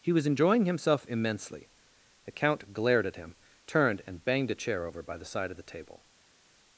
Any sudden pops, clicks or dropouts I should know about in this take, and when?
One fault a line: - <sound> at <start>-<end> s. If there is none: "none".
none